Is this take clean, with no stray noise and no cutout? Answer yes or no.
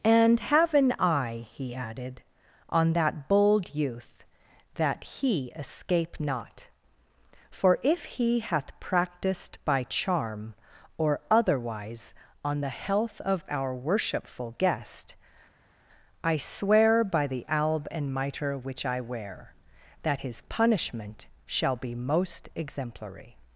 yes